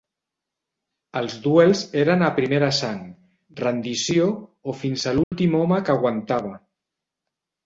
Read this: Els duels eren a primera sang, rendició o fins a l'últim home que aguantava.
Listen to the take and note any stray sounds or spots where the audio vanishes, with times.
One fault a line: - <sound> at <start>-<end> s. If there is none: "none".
- dropout at 5.2-5.3 s